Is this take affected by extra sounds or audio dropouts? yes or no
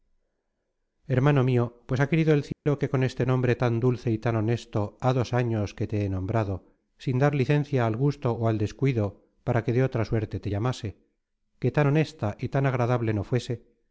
yes